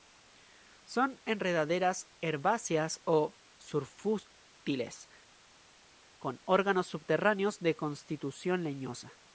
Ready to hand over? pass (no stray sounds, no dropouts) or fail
pass